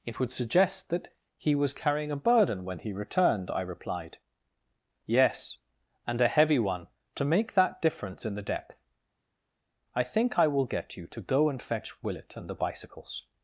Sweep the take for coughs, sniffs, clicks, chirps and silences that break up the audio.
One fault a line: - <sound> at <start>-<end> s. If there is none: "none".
none